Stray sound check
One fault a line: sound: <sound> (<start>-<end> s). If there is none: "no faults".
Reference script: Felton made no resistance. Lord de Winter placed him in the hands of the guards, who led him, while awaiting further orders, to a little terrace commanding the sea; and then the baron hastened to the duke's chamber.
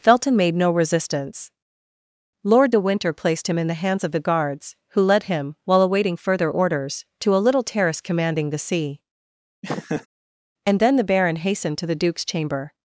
sound: laugh (9.6-10.1 s)